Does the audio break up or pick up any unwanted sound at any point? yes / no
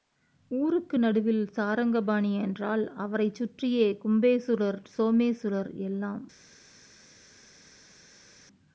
no